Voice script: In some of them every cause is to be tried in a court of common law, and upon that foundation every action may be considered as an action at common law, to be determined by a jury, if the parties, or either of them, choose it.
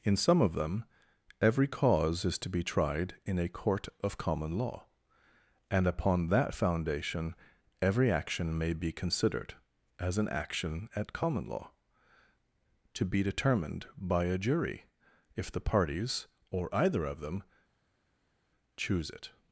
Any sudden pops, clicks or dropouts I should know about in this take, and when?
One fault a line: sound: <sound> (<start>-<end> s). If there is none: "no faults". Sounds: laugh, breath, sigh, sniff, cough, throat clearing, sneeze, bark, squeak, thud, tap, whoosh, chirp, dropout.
no faults